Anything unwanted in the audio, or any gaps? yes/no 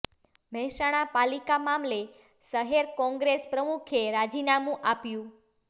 no